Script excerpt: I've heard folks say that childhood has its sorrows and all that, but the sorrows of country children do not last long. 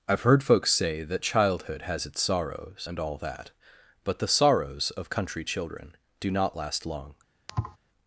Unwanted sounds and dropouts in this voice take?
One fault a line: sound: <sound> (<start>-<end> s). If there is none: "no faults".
sound: thud (7.5-7.8 s)